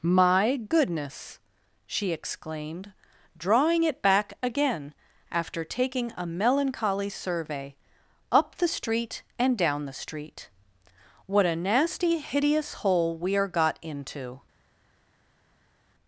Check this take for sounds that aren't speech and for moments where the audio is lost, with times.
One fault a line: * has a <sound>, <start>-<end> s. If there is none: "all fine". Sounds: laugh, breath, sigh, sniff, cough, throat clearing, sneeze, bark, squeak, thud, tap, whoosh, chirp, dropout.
all fine